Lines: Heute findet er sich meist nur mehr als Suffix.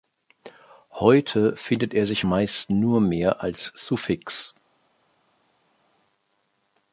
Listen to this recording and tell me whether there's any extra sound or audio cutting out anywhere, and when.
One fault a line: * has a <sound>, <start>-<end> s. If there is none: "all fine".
all fine